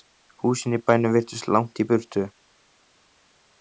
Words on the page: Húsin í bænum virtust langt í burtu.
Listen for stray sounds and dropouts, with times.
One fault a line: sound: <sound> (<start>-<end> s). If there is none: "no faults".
no faults